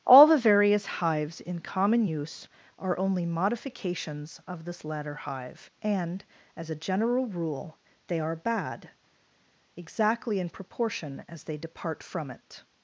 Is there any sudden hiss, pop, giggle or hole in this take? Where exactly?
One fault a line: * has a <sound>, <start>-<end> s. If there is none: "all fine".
all fine